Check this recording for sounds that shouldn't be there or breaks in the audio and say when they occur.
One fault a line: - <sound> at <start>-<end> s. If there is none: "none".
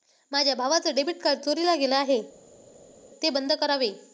none